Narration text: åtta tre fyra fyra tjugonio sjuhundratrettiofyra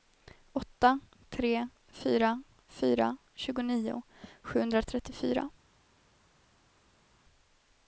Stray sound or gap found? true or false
false